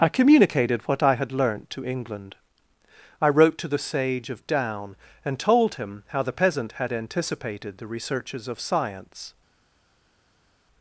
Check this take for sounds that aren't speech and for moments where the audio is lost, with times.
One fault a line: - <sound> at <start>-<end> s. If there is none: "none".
none